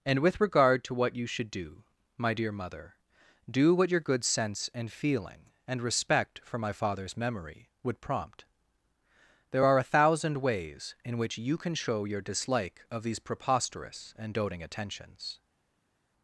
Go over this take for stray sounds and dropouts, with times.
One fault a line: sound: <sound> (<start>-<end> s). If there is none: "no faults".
no faults